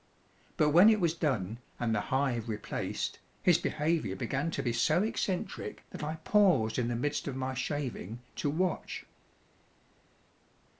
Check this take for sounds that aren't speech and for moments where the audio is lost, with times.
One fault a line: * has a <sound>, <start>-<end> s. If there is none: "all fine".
all fine